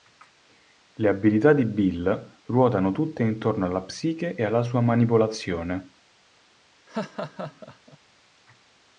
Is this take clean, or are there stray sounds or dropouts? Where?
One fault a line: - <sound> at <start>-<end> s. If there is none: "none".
- laugh at 6.9-8.0 s